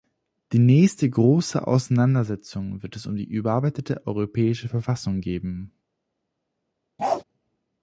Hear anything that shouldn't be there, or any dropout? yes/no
yes